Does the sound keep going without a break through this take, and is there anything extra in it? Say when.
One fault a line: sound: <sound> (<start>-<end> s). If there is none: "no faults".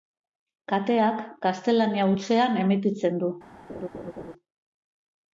sound: laugh (3.7-4.3 s)